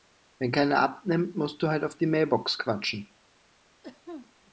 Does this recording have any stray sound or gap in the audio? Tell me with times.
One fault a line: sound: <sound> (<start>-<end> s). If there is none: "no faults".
sound: cough (3.8-4.3 s)